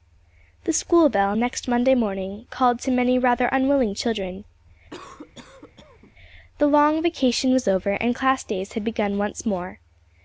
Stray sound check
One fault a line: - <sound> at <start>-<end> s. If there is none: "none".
- cough at 4.9-6.1 s